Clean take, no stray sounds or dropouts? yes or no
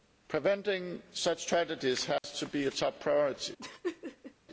no